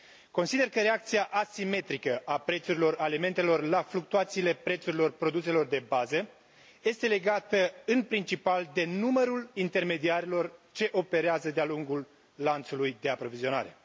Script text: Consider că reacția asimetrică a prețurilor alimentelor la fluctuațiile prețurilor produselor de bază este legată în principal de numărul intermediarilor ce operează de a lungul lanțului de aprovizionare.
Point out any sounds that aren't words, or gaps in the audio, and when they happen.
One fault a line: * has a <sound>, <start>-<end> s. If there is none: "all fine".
all fine